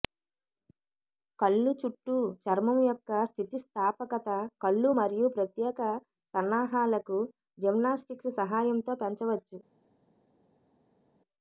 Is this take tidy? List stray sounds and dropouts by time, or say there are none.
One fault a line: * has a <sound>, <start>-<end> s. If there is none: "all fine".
all fine